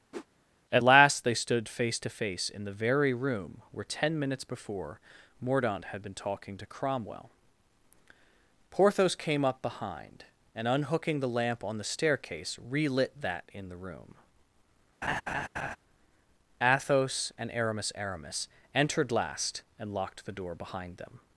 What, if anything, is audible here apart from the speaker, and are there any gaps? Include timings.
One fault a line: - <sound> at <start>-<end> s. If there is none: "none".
- whoosh at 0.1-0.3 s
- laugh at 15.0-15.8 s